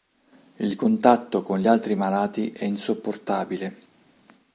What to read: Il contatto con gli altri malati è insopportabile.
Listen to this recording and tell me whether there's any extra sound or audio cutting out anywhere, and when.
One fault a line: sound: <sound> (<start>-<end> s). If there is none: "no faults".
no faults